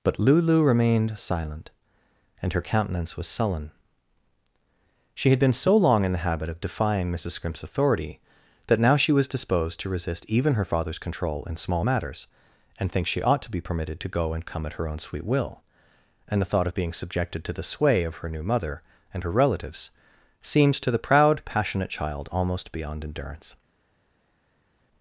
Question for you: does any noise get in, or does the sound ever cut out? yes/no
no